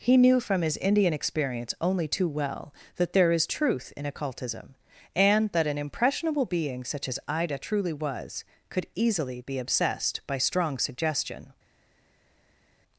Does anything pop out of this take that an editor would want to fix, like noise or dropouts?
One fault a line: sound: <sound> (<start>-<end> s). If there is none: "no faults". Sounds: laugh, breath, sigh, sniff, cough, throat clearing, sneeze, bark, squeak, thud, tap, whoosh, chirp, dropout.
no faults